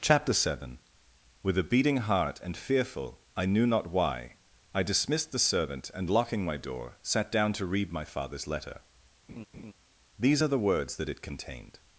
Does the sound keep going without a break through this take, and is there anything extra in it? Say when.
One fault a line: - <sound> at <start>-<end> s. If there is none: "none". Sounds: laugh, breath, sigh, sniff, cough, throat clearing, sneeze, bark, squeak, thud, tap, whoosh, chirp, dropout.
- laugh at 9.3-9.7 s